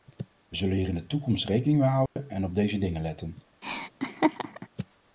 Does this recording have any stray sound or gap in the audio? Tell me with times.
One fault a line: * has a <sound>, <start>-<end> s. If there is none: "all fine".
* has a dropout, 2.1-2.2 s
* has a laugh, 3.6-4.7 s